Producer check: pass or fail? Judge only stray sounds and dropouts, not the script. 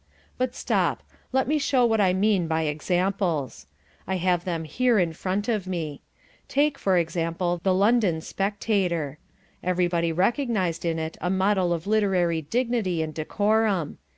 pass